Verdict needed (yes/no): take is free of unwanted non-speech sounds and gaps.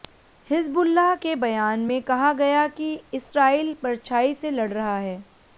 yes